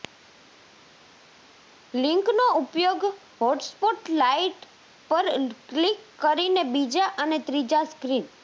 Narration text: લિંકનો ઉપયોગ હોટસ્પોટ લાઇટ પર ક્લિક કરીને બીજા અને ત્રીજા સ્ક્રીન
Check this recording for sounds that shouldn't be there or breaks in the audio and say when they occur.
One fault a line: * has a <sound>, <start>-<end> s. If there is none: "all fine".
all fine